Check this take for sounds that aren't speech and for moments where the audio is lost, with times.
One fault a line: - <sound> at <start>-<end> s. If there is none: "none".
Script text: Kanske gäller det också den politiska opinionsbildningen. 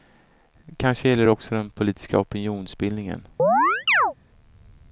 - chirp at 3.4-4.1 s